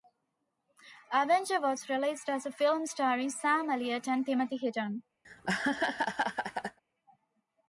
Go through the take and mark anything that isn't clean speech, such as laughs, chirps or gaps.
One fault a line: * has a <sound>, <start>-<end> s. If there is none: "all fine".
* has a laugh, 5.2-6.8 s